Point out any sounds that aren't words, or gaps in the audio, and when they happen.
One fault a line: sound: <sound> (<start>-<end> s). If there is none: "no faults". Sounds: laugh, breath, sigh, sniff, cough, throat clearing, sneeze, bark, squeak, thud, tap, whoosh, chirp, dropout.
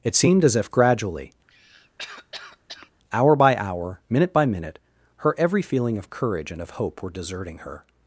sound: cough (1.5-2.9 s)